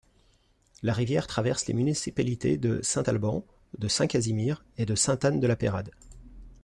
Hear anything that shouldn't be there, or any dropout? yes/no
no